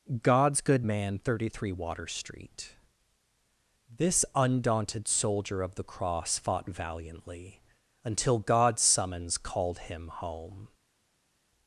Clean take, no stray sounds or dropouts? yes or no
yes